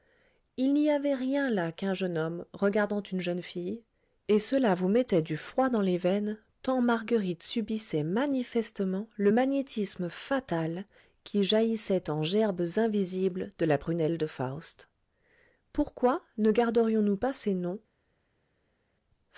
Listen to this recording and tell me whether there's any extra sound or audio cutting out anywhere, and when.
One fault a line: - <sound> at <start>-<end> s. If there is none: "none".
none